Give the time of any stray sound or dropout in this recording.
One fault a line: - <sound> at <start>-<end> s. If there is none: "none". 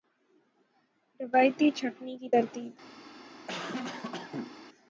- cough at 3.5-4.5 s